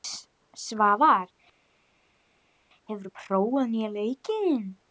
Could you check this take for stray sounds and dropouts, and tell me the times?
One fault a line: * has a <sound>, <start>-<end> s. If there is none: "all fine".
all fine